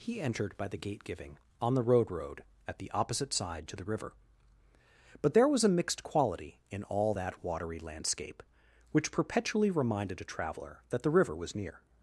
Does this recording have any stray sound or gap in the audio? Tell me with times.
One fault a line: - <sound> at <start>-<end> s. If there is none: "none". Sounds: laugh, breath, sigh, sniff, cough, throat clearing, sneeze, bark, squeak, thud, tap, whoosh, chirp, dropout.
none